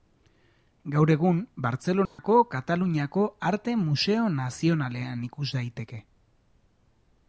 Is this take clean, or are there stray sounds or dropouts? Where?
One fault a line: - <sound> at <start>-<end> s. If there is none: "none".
- dropout at 2.1-2.2 s